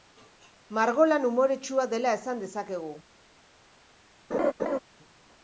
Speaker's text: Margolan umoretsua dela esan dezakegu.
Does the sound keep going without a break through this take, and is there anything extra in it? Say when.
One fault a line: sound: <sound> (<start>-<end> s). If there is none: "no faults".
sound: laugh (4.3-4.8 s)